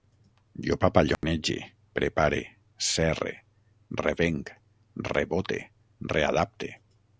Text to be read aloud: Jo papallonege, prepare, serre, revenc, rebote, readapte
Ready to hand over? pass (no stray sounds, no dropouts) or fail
fail